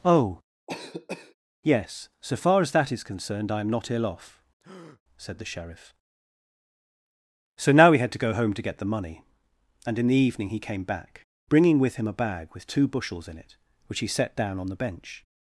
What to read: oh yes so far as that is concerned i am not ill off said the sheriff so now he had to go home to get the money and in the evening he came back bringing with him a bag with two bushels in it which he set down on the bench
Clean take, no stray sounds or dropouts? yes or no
no